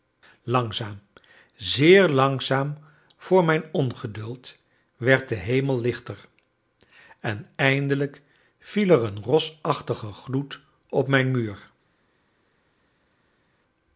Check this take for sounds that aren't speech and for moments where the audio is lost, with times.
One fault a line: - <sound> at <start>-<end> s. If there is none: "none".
none